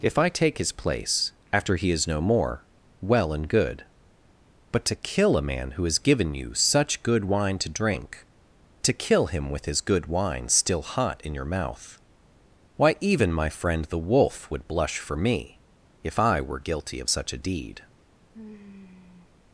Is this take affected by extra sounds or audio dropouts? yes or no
yes